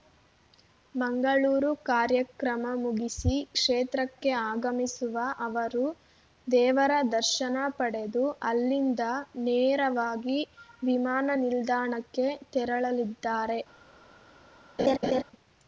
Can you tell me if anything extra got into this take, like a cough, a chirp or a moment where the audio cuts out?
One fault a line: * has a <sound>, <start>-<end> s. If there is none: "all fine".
* has a laugh, 14.8-15.2 s